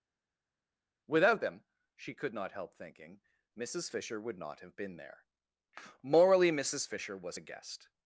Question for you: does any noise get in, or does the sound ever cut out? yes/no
no